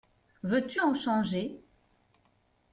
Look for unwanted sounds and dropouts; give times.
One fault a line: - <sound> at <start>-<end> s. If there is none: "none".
none